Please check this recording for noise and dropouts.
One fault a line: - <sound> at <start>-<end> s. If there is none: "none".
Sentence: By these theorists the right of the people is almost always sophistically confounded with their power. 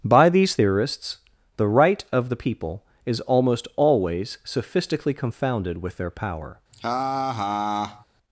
- laugh at 6.7-8.1 s